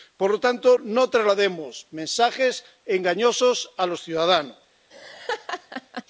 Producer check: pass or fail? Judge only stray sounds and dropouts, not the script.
fail